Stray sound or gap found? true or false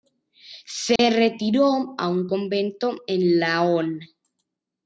true